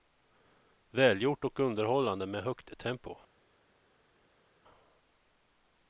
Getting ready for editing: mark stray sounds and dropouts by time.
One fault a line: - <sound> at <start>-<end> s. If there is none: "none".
none